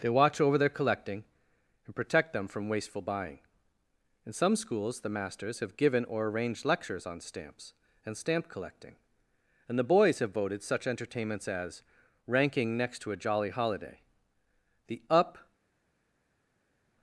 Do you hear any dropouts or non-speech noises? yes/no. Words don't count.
no